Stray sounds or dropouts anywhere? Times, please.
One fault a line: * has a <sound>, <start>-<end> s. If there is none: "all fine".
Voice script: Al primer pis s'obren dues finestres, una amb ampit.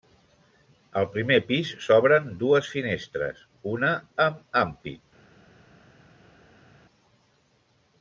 all fine